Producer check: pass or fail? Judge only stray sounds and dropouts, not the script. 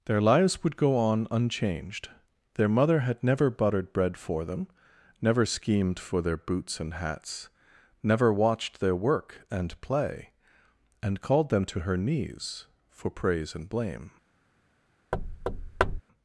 fail